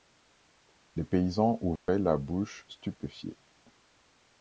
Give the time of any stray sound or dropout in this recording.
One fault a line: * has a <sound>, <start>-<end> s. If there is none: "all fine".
* has a dropout, 1.8-1.9 s